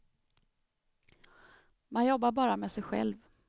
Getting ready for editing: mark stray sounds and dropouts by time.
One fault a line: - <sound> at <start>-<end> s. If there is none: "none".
none